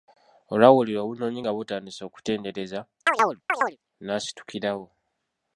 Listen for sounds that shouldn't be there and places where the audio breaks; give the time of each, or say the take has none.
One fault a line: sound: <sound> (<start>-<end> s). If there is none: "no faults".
sound: chirp (3.1-3.8 s)